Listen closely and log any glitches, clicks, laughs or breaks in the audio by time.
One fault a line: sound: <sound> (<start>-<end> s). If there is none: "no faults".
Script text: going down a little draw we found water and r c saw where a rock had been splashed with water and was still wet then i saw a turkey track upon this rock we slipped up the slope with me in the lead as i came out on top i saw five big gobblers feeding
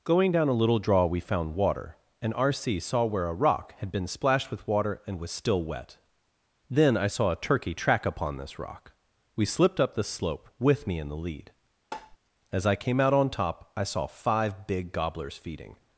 sound: tap (11.9-12.2 s)